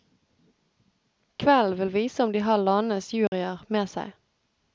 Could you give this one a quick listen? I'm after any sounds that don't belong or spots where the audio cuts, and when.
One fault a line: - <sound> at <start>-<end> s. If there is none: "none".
- dropout at 3.3-3.3 s